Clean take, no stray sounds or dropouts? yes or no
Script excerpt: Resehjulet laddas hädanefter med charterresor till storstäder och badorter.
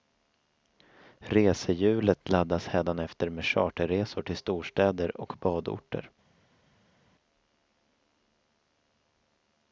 yes